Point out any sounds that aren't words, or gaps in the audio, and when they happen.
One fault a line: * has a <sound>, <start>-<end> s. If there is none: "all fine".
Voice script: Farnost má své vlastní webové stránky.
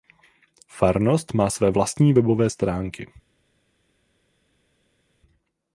all fine